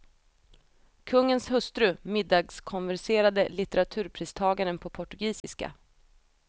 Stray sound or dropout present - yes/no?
yes